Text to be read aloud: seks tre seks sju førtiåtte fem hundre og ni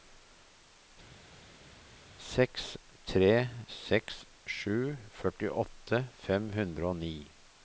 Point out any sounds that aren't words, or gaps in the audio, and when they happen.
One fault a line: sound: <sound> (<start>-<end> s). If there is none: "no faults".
no faults